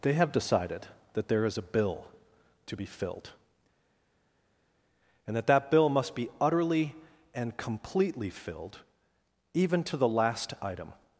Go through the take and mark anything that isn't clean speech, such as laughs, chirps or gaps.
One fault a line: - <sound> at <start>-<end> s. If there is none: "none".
none